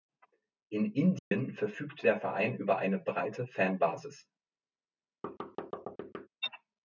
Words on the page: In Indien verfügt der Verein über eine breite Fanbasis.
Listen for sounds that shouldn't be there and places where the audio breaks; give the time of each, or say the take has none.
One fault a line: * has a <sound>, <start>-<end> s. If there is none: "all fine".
* has a dropout, 1.2-1.3 s
* has a thud, 5.2-6.3 s